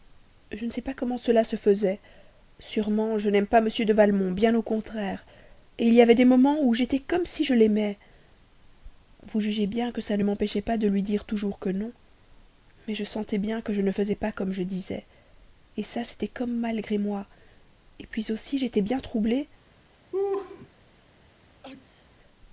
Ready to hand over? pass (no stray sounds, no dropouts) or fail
fail